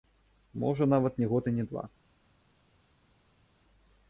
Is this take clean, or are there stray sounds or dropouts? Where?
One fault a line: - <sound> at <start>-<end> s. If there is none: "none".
none